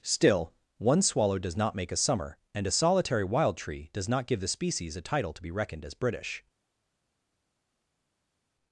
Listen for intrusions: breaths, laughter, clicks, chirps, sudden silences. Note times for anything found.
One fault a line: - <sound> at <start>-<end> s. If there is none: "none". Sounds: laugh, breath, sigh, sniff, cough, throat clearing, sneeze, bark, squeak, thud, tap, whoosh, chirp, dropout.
none